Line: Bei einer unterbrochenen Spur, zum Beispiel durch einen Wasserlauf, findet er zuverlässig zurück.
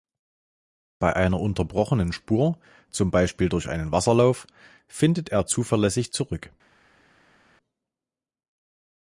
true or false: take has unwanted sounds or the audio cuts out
false